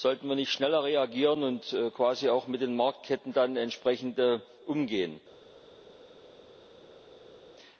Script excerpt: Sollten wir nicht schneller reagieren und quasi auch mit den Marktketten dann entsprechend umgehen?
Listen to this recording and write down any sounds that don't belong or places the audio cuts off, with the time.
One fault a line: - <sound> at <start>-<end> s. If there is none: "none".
none